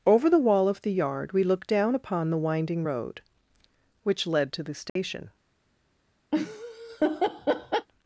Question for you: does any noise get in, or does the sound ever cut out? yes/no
yes